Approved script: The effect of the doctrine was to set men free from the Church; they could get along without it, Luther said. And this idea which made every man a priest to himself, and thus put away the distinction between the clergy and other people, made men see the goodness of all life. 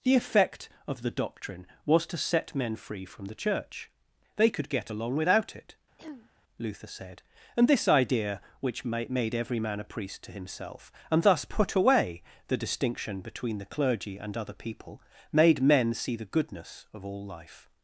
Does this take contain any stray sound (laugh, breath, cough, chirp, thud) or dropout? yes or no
yes